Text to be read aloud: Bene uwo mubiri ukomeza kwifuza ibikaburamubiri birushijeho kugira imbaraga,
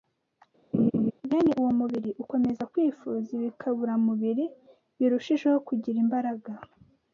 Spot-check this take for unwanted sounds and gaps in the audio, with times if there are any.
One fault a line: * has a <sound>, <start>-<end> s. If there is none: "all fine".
* has a laugh, 0.7-1.1 s